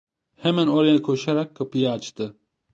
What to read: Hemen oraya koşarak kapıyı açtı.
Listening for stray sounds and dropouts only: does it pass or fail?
pass